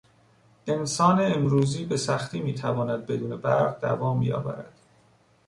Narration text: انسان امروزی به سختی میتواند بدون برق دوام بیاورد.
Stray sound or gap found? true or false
false